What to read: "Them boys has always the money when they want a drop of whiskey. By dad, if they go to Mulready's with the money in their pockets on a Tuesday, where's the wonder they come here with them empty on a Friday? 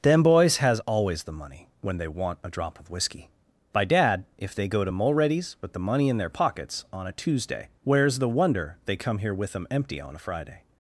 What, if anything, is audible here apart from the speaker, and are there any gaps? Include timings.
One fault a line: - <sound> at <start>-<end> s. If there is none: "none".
none